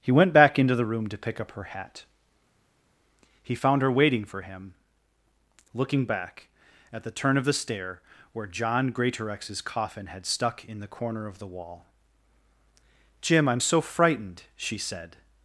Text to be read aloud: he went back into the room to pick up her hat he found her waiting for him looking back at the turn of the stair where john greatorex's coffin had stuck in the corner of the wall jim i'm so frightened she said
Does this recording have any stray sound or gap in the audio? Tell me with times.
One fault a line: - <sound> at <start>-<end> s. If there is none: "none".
none